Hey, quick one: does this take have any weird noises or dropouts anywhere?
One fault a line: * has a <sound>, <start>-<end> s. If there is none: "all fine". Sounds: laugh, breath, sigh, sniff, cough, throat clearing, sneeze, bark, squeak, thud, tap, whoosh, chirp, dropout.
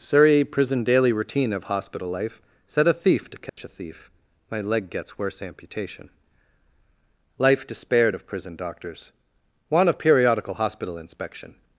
* has a dropout, 3.5-3.6 s